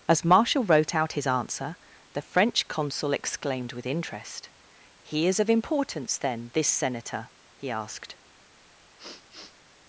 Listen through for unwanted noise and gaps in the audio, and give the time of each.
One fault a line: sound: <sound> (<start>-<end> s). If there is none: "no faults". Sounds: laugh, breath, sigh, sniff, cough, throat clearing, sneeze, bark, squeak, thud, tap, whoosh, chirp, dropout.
sound: sniff (9.0-9.6 s)